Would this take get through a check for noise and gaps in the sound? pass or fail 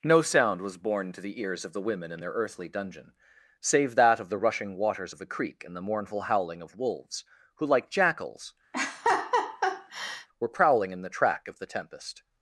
fail